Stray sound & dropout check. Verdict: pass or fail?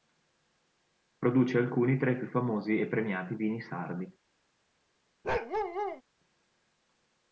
fail